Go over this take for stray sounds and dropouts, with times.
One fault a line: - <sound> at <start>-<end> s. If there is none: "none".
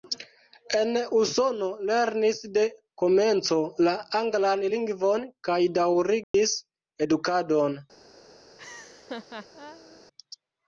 - dropout at 6.2-6.3 s
- laugh at 8.6-10.0 s